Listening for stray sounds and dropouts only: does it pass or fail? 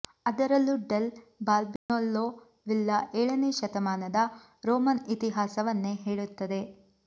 fail